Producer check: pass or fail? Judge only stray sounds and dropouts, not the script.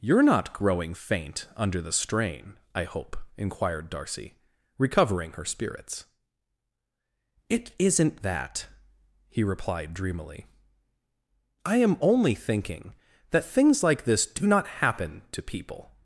pass